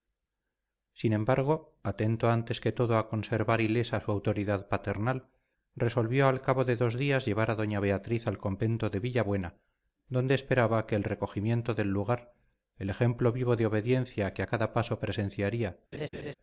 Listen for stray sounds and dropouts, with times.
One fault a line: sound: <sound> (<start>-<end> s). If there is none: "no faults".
sound: laugh (15.9-16.3 s)